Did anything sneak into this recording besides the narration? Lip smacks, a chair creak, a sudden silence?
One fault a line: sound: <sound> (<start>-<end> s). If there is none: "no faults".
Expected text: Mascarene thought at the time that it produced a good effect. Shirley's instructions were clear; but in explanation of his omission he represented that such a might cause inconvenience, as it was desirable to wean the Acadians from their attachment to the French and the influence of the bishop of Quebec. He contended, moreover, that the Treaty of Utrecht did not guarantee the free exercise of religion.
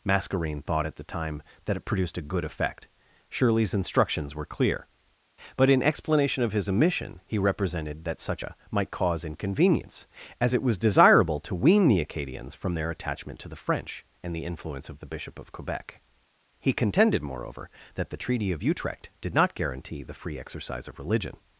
no faults